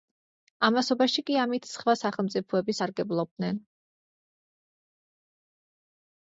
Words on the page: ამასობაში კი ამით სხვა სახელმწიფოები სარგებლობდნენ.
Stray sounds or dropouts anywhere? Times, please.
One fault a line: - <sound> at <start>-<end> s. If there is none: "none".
none